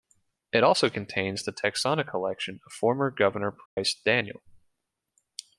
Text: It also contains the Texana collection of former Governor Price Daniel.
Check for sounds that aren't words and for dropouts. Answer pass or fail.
fail